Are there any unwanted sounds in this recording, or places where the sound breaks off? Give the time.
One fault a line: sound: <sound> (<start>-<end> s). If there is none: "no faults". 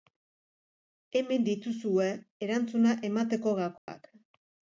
sound: dropout (3.8-3.9 s)